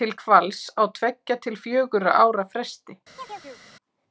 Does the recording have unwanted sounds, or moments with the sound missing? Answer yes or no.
yes